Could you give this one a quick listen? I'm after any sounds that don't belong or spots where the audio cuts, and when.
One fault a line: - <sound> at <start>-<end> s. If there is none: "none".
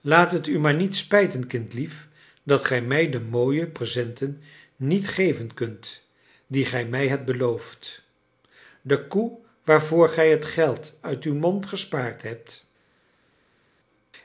none